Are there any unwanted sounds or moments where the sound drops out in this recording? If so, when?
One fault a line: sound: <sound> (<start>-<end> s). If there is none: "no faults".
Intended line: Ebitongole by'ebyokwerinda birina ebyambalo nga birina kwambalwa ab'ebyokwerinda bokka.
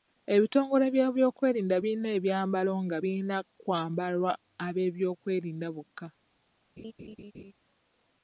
sound: laugh (6.8-7.5 s)